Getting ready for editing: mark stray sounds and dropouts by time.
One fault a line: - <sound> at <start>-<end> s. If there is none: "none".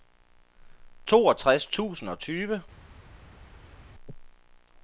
none